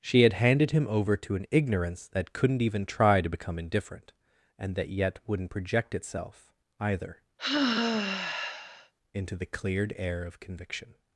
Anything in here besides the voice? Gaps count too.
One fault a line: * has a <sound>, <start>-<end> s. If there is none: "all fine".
* has a sigh, 7.4-8.9 s